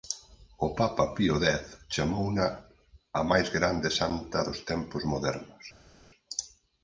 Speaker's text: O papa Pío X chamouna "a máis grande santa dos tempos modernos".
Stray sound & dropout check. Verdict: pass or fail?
pass